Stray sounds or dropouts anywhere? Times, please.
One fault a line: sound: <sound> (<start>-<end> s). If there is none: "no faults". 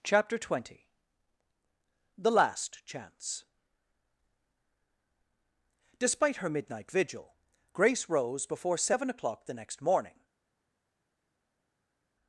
no faults